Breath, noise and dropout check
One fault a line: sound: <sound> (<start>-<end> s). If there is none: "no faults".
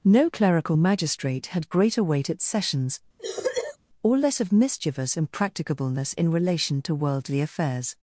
sound: cough (3.2-3.8 s)